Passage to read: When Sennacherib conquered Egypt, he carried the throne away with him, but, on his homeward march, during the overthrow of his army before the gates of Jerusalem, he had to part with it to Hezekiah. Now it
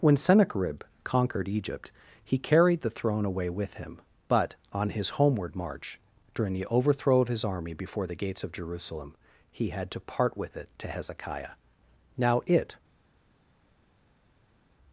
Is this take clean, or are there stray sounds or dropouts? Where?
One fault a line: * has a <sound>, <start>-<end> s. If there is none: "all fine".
all fine